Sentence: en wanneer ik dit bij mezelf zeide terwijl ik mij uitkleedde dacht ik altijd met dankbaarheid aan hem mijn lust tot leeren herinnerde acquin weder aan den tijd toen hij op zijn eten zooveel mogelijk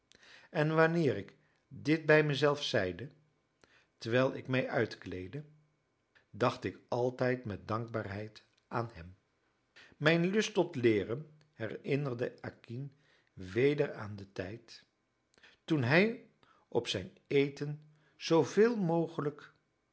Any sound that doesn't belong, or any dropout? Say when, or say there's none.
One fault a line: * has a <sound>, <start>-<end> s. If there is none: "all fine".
all fine